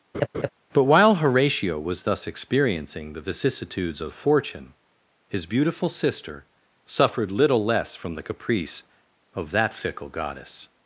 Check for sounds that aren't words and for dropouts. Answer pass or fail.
fail